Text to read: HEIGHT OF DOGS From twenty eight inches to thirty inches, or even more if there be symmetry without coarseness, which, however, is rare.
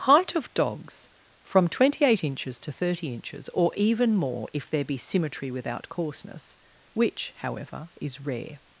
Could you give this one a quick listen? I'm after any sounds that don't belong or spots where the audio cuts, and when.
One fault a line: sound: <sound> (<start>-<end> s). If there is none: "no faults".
no faults